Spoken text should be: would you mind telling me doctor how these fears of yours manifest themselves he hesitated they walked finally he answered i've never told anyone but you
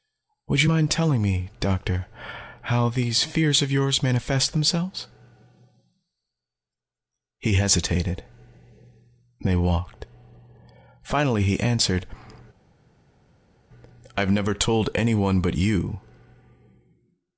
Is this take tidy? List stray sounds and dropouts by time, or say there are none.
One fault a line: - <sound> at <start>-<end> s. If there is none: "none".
none